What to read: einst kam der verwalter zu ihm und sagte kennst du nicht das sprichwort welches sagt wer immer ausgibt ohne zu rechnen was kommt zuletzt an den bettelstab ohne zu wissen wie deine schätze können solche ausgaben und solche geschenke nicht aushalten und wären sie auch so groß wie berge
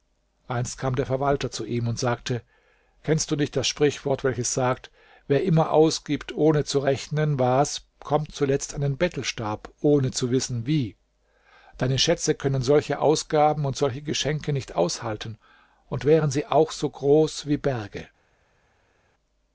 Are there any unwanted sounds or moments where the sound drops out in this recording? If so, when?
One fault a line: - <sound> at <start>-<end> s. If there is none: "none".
none